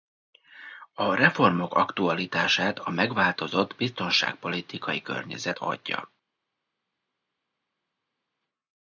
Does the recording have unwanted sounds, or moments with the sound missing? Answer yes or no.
no